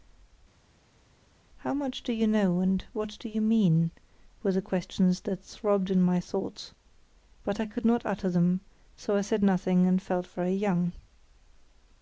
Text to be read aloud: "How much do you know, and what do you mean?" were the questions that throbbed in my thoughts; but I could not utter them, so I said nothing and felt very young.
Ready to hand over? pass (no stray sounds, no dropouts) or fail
pass